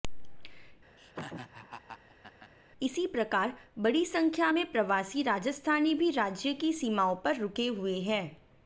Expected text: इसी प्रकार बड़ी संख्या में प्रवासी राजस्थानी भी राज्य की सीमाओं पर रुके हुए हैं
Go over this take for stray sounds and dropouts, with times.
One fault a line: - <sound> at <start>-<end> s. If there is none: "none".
- laugh at 1.0-2.5 s